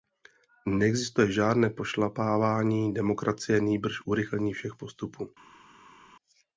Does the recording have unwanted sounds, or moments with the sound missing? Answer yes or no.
no